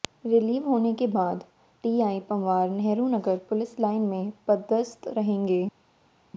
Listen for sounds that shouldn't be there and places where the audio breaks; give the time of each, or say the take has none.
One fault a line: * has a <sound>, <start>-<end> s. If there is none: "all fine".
all fine